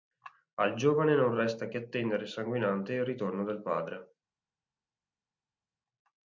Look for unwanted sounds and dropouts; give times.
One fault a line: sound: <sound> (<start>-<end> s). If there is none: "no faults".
no faults